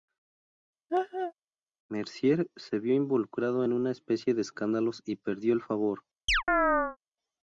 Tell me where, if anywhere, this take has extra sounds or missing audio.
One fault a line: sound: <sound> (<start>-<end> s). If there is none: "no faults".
sound: laugh (0.9-1.3 s)
sound: chirp (6.3-7.0 s)